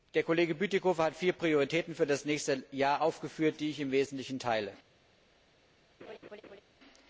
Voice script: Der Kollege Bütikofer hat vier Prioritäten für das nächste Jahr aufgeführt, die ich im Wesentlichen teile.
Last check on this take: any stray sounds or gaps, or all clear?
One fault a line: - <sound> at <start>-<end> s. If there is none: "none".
- laugh at 6.0-6.6 s